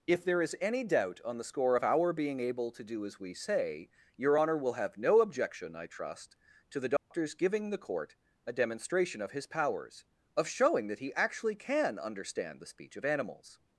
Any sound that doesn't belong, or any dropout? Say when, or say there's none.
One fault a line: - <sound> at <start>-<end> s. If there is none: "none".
- dropout at 7.0-7.1 s